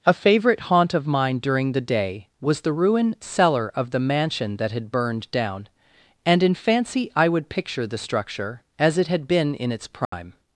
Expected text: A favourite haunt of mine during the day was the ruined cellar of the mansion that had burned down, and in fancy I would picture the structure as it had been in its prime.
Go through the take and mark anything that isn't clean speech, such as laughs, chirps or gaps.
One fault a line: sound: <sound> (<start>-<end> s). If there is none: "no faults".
sound: dropout (10.0-10.1 s)